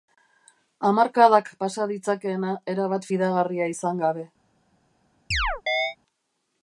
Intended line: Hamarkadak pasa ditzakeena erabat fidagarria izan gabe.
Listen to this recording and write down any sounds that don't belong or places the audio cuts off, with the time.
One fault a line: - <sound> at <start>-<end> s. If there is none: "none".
- chirp at 5.3-6.0 s